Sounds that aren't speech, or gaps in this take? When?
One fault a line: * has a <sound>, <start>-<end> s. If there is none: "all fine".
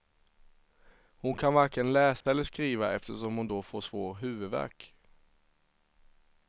* has a dropout, 2.2-2.3 s